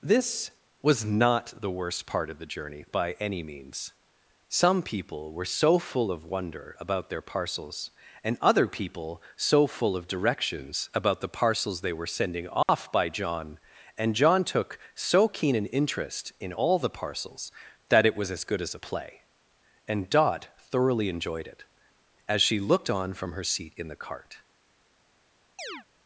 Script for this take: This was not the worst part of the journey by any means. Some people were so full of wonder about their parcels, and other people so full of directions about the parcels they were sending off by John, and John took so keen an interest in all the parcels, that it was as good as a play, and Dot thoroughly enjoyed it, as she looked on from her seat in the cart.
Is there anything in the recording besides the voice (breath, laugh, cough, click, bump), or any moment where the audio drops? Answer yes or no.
yes